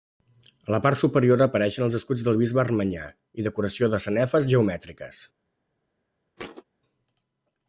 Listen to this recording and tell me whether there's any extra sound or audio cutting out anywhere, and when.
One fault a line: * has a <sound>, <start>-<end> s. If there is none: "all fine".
* has a thud, 6.4-6.6 s